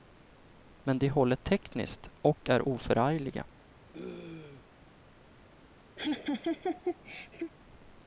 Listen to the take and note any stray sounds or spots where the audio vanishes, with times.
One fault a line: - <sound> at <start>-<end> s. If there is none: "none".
- throat clearing at 3.9-4.7 s
- laugh at 6.0-7.5 s